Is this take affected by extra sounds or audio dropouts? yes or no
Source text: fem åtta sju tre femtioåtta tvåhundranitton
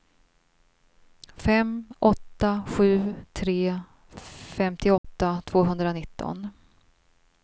yes